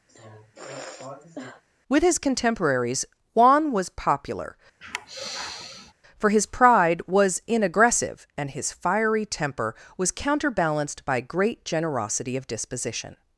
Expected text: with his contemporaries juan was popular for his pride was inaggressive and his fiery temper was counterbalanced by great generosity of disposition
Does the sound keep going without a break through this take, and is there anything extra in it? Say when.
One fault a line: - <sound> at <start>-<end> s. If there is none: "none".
- sigh at 0.1-1.6 s
- sigh at 4.8-5.9 s